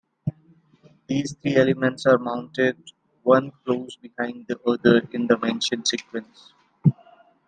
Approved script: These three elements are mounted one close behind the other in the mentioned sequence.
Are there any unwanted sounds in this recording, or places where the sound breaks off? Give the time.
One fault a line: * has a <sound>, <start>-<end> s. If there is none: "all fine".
all fine